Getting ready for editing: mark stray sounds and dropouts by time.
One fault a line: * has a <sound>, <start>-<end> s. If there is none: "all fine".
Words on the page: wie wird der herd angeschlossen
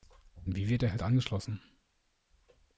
all fine